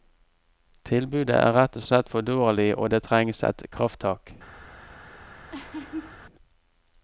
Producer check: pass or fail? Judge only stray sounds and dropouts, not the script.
fail